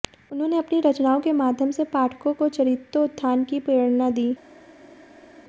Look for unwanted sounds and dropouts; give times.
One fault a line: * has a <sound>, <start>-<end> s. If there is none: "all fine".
all fine